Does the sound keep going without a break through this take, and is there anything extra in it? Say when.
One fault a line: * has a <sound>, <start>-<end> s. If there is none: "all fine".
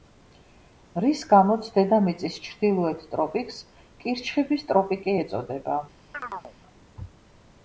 * has a chirp, 6.1-6.5 s